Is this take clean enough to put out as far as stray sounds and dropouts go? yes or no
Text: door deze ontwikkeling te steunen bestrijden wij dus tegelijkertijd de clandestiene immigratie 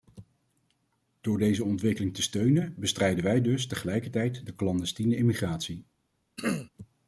no